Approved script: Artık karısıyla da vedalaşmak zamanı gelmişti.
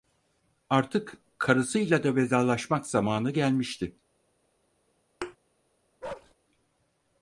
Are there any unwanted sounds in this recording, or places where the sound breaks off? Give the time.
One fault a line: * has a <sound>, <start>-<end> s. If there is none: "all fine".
* has a thud, 5.2-5.4 s
* has a bark, 6.0-6.3 s